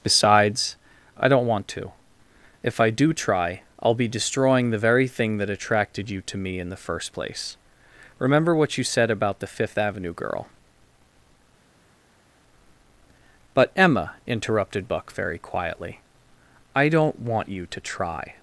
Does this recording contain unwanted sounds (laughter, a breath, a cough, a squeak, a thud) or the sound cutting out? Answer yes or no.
no